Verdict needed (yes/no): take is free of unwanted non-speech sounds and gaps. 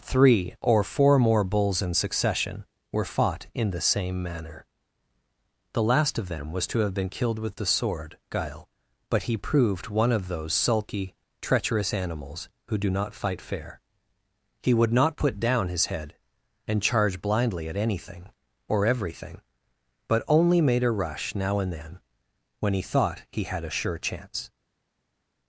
yes